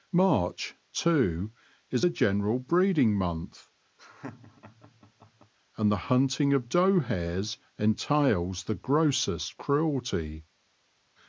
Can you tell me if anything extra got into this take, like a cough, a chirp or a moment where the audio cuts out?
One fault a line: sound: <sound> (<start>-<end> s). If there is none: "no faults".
sound: laugh (4.0-5.5 s)